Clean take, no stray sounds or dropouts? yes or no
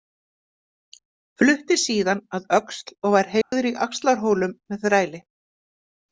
no